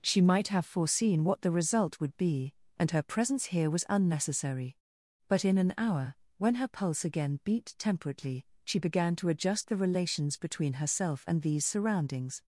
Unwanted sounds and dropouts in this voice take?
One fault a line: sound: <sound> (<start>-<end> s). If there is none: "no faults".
no faults